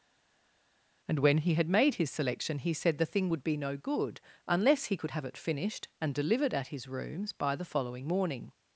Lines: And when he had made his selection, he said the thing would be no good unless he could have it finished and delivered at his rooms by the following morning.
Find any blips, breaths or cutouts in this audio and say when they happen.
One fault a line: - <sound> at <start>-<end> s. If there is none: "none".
none